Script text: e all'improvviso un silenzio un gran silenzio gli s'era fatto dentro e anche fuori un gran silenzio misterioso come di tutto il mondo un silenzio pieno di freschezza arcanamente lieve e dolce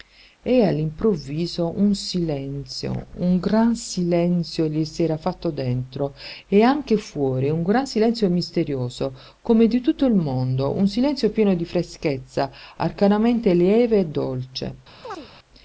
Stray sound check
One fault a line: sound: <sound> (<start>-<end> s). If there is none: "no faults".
sound: chirp (15.0-15.3 s)